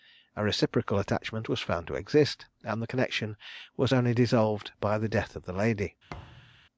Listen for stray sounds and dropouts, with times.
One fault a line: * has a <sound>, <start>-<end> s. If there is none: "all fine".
* has a thud, 6.1-6.6 s